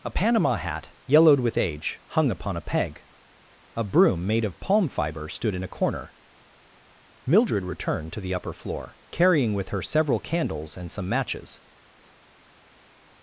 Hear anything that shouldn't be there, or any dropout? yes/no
no